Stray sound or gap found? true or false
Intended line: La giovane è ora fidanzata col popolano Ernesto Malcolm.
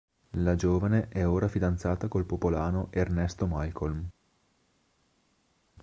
false